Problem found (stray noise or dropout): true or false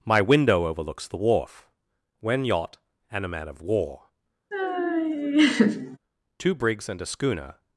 true